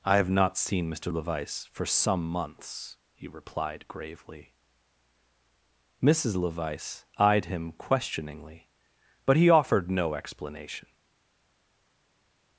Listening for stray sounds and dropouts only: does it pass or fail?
pass